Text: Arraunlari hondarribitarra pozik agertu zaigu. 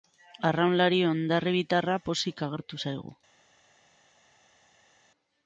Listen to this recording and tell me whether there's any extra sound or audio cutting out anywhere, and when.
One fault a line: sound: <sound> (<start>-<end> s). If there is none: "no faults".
no faults